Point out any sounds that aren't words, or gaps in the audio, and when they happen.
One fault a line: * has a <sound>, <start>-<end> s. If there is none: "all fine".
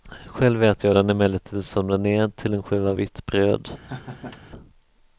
* has a laugh, 3.8-4.5 s